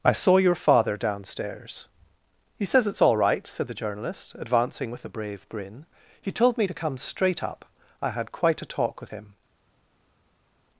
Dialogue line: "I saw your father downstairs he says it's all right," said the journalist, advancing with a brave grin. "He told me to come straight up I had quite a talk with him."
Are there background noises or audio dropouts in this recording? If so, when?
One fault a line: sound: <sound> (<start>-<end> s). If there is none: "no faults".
no faults